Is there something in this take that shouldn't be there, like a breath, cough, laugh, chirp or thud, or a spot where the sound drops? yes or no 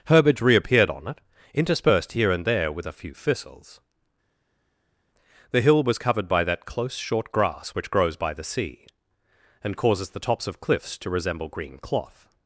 no